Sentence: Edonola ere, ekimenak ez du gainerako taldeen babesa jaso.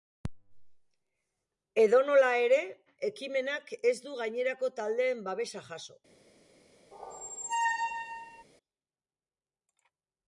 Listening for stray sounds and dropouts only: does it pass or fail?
fail